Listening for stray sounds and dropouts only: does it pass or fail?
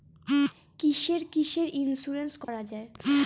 fail